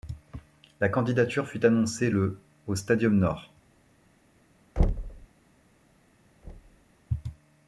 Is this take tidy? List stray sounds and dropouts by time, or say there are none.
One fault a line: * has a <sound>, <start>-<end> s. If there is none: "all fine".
* has a thud, 4.8-5.3 s
* has a thud, 6.4-6.9 s